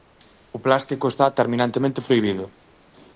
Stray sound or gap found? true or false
false